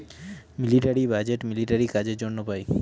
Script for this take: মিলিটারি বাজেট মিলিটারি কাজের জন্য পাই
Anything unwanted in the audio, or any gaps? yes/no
no